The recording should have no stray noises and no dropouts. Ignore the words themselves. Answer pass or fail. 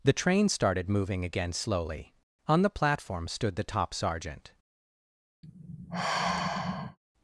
fail